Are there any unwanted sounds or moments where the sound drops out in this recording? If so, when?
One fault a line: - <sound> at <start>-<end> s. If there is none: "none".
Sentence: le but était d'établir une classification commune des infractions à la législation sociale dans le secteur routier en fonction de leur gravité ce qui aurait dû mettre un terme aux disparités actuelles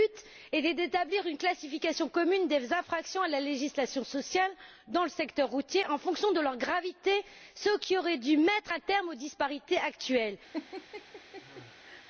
- laugh at 10.5-12.0 s